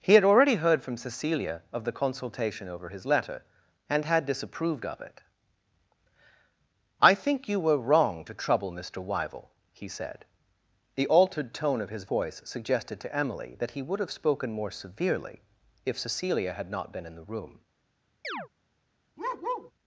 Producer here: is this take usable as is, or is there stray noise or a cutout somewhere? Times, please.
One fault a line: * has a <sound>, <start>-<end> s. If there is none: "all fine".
* has a chirp, 18.2-18.5 s
* has a bark, 19.2-19.7 s